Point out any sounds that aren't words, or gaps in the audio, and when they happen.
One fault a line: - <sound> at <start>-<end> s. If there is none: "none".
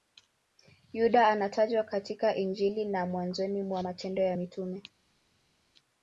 none